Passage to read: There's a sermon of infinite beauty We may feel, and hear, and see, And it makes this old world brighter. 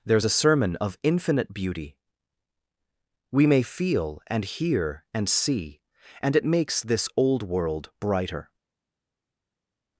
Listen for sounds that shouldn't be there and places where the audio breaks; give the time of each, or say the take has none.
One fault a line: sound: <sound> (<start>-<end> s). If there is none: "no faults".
no faults